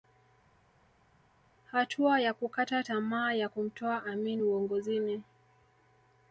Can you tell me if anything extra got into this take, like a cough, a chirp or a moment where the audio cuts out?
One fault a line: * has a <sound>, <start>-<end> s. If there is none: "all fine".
all fine